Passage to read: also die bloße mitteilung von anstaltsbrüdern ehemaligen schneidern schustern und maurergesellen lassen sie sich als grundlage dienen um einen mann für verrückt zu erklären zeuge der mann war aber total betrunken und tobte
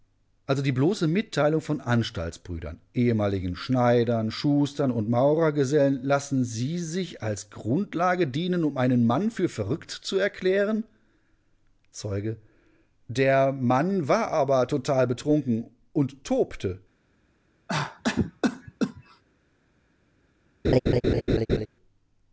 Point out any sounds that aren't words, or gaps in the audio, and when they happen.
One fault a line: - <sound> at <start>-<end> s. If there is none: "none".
- cough at 17.7-19.2 s
- laugh at 20.6-21.7 s